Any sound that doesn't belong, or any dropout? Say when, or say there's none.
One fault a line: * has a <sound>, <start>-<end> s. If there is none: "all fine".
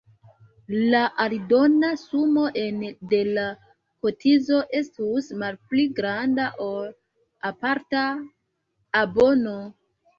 all fine